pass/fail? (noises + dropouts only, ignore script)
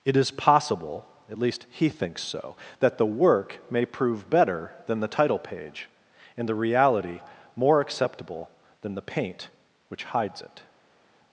pass